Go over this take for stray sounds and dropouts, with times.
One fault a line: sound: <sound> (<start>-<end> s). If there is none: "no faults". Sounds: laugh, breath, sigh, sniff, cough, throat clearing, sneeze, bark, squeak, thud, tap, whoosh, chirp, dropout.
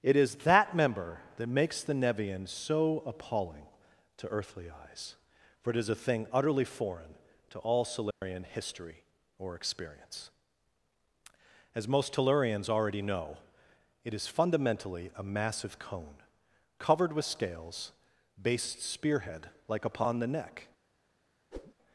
sound: dropout (8.1-8.2 s)
sound: whoosh (21.5-21.7 s)